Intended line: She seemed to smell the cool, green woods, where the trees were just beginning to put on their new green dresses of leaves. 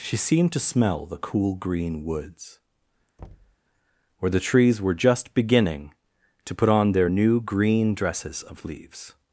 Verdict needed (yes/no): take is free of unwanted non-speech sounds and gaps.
no